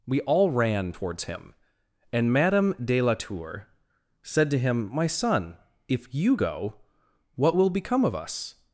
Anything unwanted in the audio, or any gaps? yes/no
no